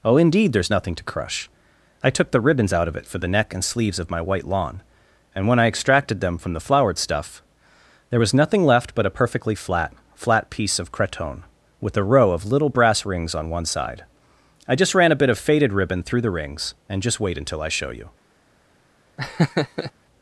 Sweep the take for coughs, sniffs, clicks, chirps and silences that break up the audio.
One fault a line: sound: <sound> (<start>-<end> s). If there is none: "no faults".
sound: laugh (19.2-19.9 s)